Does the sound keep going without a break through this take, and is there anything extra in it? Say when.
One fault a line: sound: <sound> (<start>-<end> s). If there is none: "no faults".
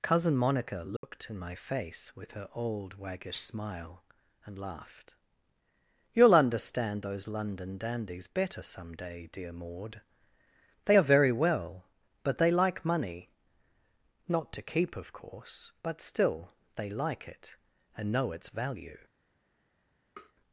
sound: dropout (1.0-1.0 s)
sound: tap (20.2-20.3 s)